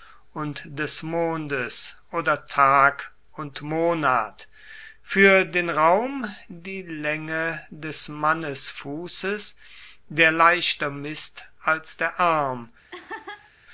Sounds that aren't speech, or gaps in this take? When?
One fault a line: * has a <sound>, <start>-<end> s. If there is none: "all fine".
* has a laugh, 12.9-13.5 s